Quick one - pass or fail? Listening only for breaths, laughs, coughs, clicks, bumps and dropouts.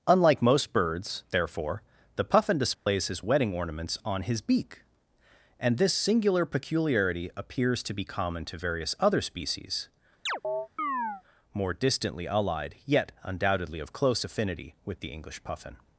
fail